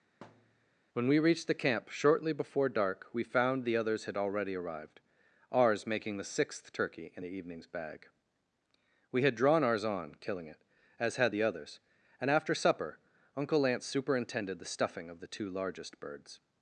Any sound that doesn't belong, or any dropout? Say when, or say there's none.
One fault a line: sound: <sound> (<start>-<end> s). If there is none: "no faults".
sound: thud (0.2-0.8 s)